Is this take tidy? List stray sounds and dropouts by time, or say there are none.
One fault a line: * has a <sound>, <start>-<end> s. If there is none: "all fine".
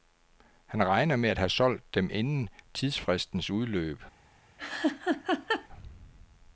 * has a laugh, 4.6-5.7 s